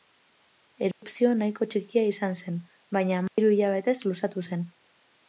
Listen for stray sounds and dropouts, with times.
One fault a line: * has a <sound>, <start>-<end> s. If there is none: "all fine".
* has a dropout, 0.9-1.0 s
* has a dropout, 3.3-3.4 s